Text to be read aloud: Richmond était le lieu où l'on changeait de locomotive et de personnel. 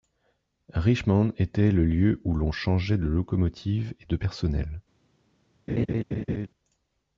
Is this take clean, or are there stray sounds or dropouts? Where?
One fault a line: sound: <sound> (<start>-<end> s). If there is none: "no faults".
sound: laugh (5.7-6.5 s)